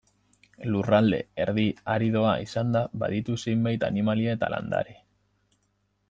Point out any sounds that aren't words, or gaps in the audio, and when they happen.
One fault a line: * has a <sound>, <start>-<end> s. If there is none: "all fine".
all fine